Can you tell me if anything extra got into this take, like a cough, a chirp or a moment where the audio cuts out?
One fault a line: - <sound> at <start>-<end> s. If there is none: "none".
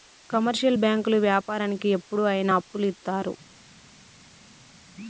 none